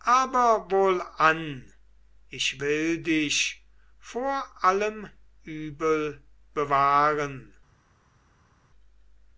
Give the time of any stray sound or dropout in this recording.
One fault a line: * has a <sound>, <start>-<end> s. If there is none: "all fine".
all fine